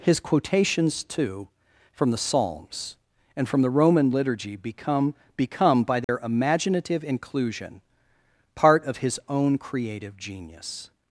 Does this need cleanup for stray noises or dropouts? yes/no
yes